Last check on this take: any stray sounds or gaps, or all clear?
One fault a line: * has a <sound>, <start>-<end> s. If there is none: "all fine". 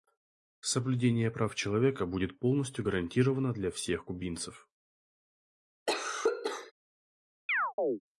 * has a cough, 5.9-6.7 s
* has a chirp, 7.5-8.0 s